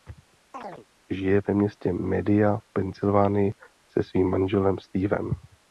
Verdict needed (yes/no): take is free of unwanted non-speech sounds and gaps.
no